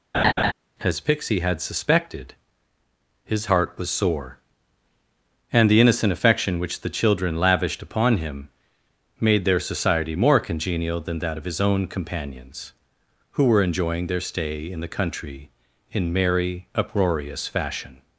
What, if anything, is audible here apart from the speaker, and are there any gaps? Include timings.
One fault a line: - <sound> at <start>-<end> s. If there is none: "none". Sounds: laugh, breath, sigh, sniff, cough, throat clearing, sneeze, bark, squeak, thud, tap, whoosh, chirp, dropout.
- laugh at 0.1-0.5 s